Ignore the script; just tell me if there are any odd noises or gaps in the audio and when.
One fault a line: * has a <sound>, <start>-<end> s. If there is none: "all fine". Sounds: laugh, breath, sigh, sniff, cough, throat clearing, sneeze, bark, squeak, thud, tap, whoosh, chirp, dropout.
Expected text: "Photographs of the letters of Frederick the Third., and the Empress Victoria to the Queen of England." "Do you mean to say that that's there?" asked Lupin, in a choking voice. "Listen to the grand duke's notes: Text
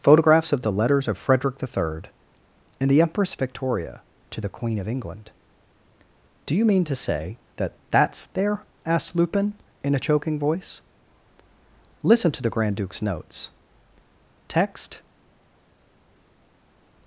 all fine